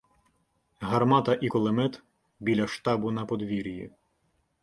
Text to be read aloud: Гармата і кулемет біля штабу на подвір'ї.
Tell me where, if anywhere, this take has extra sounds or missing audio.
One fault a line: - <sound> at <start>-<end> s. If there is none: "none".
none